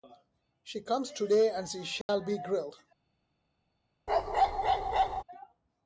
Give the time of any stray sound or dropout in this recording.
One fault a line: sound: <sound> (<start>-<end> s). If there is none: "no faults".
sound: dropout (2.0-2.1 s)
sound: bark (4.1-5.2 s)